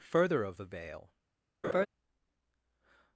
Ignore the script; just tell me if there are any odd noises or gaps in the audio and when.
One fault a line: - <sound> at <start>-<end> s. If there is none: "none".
- laugh at 1.6-1.9 s